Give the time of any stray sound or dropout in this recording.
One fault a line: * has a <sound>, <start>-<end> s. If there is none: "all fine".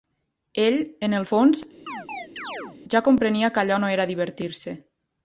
* has a chirp, 1.9-2.8 s